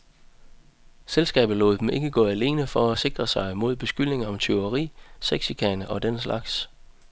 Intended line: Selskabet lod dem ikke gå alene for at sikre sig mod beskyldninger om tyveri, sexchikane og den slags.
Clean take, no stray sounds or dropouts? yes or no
yes